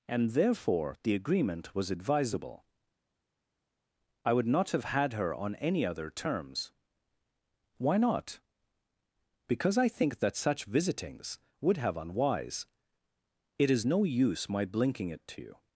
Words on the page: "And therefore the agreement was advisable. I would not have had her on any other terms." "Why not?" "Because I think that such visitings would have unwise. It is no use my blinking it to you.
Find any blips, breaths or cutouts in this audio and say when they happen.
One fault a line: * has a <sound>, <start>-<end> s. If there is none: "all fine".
all fine